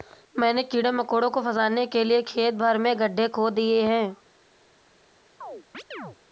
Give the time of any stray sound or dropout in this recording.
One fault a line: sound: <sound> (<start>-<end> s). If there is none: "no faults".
sound: chirp (5.4-6.2 s)